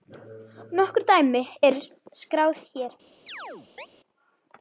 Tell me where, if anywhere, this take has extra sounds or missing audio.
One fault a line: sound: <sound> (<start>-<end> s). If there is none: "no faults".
sound: chirp (3.3-3.9 s)